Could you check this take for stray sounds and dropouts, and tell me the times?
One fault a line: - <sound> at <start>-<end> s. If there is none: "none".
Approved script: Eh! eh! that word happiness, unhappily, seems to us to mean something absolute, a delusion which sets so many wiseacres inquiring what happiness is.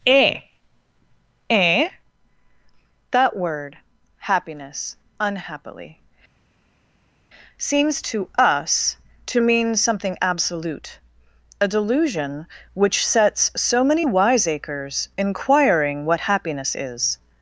none